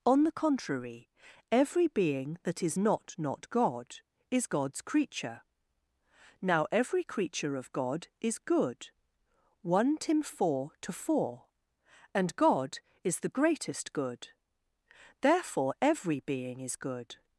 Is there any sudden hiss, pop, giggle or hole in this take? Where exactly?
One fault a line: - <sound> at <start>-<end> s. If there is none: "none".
none